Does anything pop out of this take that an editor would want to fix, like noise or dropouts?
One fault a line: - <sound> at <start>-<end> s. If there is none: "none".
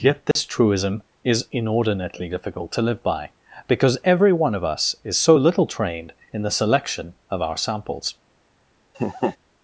- dropout at 0.3-0.4 s
- laugh at 8.9-9.4 s